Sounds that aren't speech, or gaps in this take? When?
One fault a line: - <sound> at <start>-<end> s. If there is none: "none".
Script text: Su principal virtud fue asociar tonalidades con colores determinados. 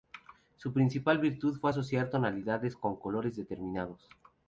none